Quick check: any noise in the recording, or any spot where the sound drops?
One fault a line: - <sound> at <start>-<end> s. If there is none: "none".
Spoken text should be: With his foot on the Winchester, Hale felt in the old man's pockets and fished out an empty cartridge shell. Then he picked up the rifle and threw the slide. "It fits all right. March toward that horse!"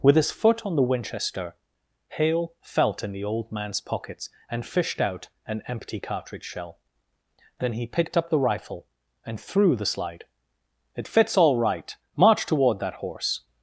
none